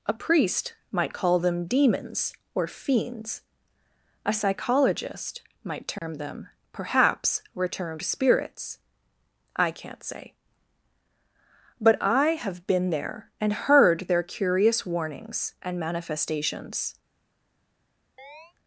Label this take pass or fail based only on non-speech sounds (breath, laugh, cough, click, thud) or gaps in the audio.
fail